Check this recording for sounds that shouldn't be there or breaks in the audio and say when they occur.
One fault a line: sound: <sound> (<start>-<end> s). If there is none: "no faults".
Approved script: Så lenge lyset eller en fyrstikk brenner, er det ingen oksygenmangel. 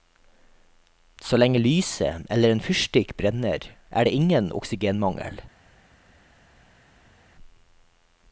no faults